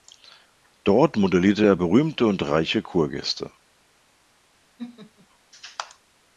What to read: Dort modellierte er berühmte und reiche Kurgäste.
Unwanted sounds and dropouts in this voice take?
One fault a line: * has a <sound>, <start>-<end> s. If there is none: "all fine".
* has a laugh, 4.8-5.3 s